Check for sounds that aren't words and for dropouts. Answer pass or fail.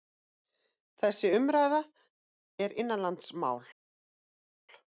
pass